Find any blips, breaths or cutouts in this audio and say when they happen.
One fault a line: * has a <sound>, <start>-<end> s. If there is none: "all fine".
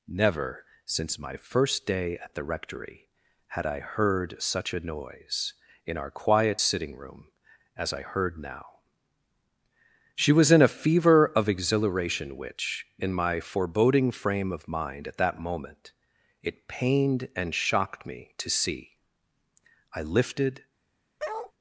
* has a bark, 21.2-21.5 s